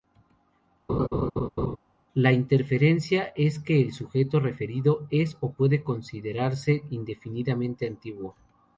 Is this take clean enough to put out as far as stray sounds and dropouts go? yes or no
no